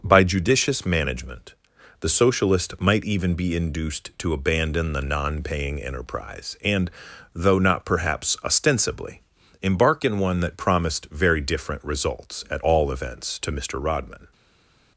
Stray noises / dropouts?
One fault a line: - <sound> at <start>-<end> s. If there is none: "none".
none